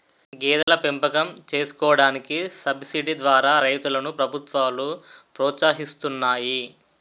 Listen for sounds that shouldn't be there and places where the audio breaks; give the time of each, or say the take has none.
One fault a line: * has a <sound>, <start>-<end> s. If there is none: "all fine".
* has a dropout, 0.6-0.7 s